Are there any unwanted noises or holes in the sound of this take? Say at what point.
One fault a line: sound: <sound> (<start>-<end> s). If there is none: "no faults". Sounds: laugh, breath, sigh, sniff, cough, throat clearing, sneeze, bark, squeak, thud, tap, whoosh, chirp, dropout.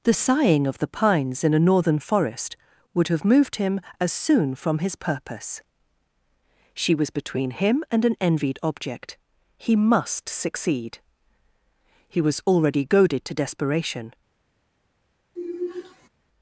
sound: sigh (15.4-16.1 s)